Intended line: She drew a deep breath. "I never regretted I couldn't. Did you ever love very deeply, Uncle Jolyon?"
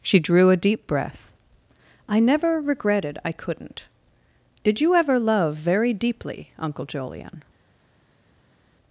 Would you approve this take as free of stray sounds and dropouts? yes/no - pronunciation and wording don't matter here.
yes